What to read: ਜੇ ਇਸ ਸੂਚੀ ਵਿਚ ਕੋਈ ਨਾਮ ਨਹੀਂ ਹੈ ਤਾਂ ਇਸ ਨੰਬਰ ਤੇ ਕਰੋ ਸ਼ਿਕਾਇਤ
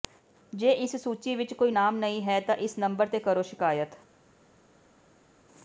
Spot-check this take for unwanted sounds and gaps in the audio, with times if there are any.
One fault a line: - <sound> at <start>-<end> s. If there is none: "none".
none